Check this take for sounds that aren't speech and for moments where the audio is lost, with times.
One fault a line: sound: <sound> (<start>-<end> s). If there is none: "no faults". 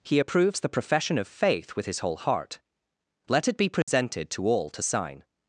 sound: dropout (3.8-3.9 s)